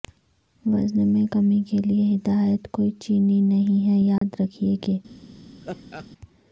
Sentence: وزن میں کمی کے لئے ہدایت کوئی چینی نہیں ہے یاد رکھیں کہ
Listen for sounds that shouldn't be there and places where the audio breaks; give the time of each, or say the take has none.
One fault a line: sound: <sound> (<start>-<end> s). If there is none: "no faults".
sound: dropout (4.2-4.2 s)
sound: laugh (5.6-6.1 s)